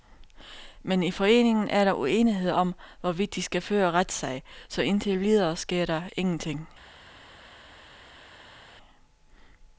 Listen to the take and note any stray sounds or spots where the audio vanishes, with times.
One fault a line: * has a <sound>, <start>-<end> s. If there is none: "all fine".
all fine